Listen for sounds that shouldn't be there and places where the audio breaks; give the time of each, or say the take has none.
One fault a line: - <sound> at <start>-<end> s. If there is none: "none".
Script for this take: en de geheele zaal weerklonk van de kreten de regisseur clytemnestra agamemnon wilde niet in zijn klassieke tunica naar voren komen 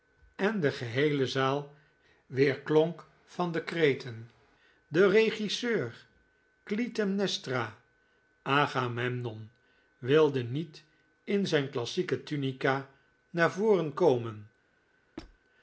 - squeak at 15.2-15.4 s